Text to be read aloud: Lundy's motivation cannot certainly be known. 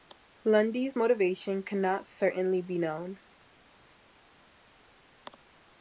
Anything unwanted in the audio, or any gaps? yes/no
no